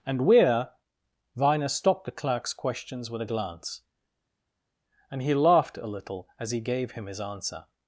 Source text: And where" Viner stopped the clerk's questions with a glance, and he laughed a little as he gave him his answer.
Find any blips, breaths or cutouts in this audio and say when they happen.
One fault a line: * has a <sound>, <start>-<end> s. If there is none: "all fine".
all fine